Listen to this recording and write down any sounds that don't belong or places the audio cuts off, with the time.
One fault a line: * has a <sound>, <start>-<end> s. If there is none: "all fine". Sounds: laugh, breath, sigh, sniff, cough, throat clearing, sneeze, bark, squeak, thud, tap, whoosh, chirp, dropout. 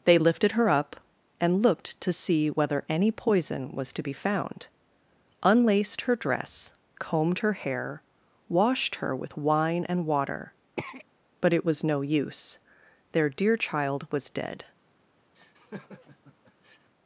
* has a throat clearing, 10.8-11.1 s
* has a laugh, 15.3-16.9 s